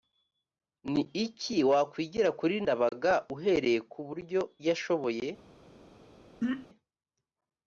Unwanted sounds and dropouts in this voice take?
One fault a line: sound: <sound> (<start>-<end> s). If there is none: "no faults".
sound: throat clearing (6.4-6.7 s)